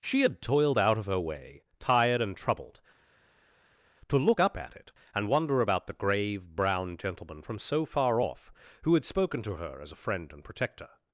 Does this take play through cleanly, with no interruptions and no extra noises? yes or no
yes